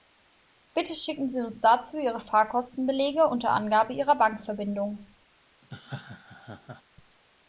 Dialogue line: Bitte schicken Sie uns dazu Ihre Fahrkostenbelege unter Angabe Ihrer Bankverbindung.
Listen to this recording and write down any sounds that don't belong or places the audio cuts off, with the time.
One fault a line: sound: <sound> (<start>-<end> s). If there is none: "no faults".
sound: laugh (5.6-6.8 s)